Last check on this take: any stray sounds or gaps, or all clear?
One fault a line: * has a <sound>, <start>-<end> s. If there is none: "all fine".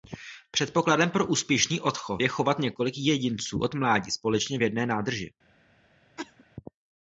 * has a cough, 6.2-6.4 s